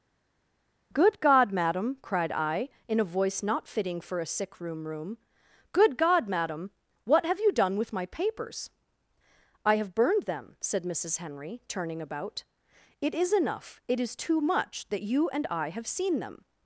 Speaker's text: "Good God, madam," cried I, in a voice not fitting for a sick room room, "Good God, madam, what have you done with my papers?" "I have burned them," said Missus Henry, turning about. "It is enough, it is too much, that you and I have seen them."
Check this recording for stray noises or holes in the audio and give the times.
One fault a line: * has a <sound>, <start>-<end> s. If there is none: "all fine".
all fine